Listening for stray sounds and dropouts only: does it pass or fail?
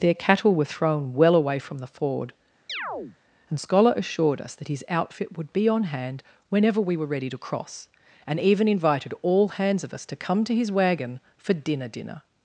fail